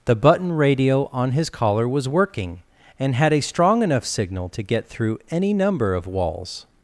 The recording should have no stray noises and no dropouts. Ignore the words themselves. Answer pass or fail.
pass